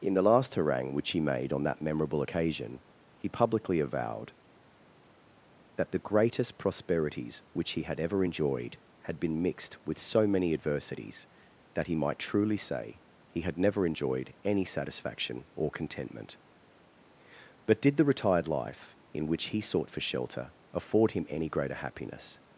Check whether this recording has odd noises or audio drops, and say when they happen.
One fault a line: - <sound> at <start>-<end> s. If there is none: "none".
none